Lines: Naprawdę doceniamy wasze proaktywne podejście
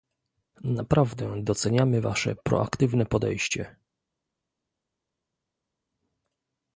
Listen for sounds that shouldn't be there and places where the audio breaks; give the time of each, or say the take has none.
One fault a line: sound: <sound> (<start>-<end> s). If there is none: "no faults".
no faults